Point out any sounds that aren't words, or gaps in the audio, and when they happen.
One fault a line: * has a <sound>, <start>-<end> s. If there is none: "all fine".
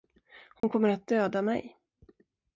* has a dropout, 0.6-0.6 s